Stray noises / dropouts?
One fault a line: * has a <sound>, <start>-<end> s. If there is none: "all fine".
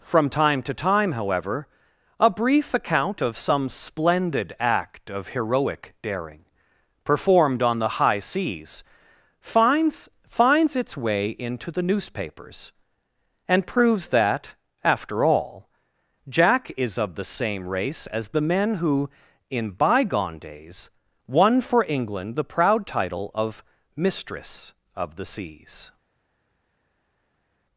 all fine